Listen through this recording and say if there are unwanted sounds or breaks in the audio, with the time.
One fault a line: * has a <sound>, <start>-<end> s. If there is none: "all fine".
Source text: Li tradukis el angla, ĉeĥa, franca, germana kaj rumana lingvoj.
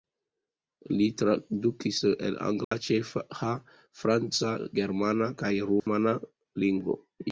* has a dropout, 2.6-2.7 s
* has a dropout, 5.8-5.9 s